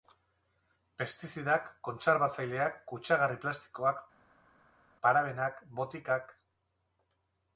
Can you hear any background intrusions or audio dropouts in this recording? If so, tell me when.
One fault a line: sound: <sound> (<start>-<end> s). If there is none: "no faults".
no faults